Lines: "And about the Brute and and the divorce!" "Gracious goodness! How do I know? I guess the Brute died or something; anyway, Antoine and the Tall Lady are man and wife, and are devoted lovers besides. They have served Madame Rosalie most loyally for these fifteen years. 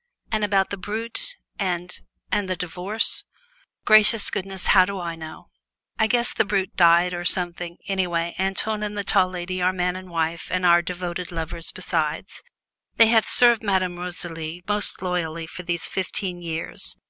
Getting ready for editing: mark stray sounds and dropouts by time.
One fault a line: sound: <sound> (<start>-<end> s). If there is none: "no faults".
no faults